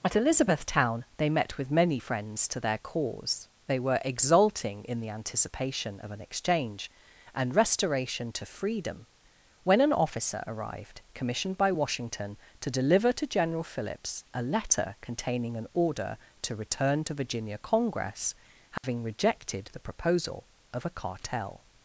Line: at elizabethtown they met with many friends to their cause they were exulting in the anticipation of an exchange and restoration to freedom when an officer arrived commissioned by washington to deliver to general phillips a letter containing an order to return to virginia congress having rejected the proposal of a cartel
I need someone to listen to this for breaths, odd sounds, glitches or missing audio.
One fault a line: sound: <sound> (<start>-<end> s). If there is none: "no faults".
sound: dropout (18.8-18.8 s)